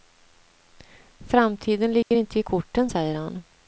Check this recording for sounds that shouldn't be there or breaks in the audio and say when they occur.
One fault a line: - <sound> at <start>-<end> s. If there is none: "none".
- dropout at 2.0-2.1 s